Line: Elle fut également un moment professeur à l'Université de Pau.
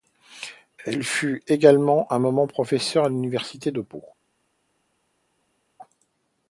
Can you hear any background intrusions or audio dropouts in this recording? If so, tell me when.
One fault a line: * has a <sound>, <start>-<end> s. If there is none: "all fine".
all fine